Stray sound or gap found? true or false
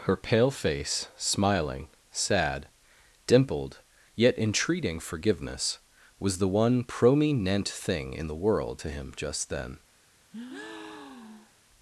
true